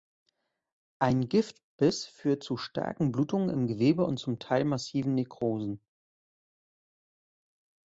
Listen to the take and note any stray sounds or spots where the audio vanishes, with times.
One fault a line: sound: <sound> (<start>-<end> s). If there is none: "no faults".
no faults